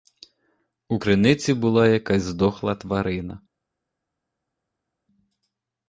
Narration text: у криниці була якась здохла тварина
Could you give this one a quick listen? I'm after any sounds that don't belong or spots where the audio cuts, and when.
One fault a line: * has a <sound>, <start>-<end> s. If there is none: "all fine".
all fine